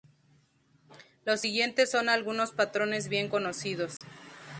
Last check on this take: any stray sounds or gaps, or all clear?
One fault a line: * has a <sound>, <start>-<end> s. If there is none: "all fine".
* has a dropout, 4.0-4.0 s